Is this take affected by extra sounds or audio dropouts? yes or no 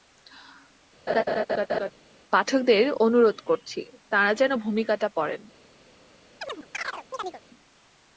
yes